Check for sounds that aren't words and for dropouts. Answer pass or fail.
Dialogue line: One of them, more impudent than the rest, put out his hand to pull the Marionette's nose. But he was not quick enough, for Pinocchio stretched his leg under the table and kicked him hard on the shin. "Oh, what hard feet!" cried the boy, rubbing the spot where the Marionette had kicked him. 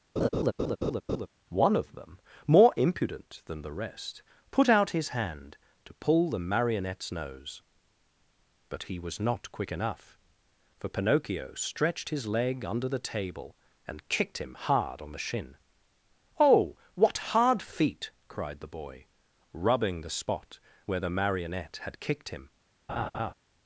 fail